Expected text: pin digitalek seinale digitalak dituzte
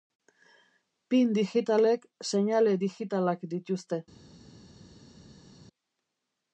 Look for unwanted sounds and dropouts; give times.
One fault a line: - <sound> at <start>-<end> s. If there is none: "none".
none